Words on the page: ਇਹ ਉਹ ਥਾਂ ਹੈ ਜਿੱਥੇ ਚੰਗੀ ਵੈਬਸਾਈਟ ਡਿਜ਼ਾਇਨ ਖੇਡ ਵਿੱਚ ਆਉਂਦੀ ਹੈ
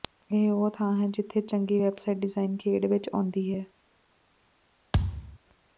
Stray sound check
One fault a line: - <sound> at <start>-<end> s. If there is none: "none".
- thud at 4.9-5.4 s